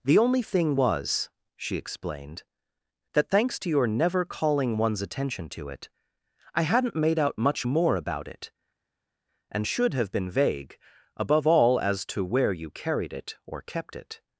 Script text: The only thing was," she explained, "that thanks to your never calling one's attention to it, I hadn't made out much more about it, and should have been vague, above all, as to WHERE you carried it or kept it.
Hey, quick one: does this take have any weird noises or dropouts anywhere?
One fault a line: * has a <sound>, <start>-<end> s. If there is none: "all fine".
all fine